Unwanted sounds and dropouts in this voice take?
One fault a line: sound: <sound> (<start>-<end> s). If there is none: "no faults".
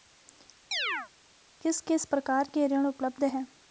sound: chirp (0.7-1.1 s)